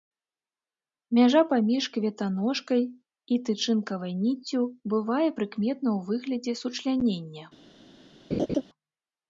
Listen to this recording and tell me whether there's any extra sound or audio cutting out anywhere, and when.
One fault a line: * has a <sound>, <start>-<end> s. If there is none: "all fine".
* has a laugh, 8.3-8.6 s